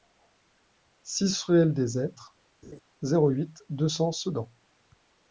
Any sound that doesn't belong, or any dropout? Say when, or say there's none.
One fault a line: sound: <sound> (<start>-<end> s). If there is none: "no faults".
sound: laugh (2.6-2.8 s)